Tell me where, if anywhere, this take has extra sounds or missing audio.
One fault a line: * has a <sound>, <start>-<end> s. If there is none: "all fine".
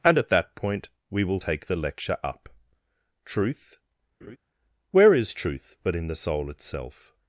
* has a laugh, 4.2-4.4 s